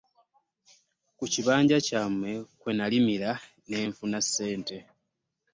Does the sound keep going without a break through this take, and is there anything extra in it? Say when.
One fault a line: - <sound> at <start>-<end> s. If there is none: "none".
none